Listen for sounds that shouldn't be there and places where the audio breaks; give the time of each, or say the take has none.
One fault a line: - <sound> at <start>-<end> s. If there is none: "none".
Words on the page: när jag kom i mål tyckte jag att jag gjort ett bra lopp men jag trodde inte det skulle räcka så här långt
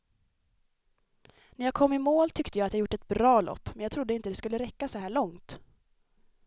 none